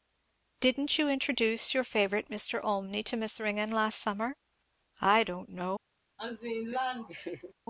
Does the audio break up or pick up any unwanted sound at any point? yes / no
yes